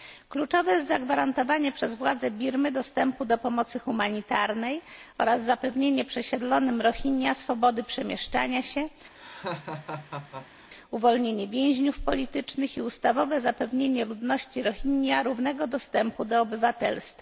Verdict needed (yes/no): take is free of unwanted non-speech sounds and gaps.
no